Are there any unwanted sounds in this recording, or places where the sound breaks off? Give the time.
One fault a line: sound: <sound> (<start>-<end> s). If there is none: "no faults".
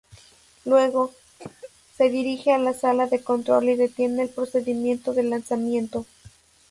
sound: cough (1.4-1.7 s)